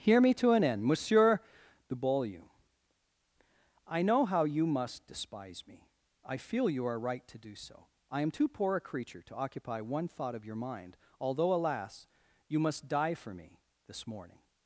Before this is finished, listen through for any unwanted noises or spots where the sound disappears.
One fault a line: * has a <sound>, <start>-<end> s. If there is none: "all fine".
all fine